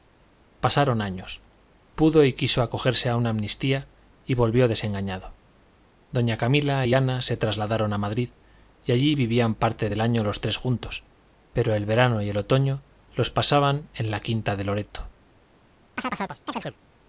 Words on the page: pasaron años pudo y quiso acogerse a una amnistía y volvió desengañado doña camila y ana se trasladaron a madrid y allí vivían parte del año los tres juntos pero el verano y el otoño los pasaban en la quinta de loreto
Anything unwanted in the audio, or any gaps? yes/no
yes